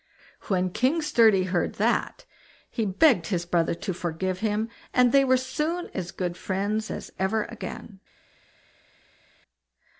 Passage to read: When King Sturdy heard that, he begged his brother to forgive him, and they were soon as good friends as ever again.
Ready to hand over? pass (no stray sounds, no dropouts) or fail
pass